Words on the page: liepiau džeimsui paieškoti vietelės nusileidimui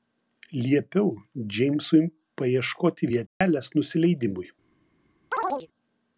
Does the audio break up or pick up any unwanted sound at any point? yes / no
yes